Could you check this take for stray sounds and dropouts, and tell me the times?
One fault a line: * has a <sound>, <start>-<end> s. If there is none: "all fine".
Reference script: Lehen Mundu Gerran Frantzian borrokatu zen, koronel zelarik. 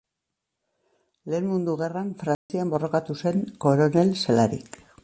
* has a dropout, 2.3-2.5 s